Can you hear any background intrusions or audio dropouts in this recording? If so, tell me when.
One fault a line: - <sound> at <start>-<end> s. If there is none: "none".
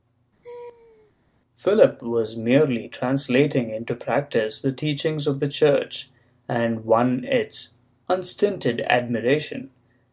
- laugh at 0.4-1.1 s